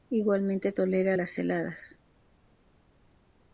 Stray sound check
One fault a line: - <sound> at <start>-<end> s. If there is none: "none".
none